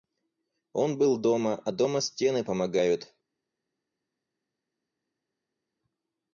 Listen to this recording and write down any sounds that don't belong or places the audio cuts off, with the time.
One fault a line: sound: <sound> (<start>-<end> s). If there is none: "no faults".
no faults